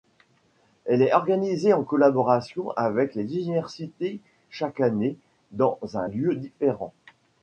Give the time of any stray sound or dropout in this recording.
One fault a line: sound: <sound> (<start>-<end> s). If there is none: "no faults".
no faults